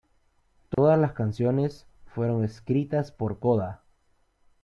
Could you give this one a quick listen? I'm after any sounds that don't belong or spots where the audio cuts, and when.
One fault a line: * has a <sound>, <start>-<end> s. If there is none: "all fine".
* has a dropout, 0.7-0.8 s